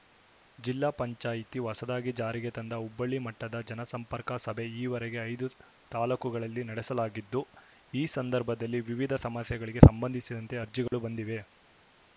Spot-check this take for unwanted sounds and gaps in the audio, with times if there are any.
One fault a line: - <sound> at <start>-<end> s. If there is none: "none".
- dropout at 10.9-10.9 s